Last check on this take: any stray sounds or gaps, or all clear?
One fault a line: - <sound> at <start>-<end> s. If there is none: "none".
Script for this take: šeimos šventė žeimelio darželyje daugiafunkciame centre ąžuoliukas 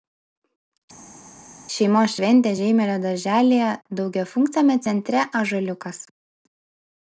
none